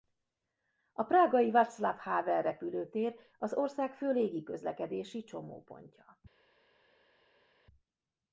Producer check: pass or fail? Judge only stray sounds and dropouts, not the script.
pass